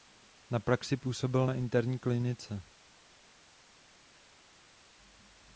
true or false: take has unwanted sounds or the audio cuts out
false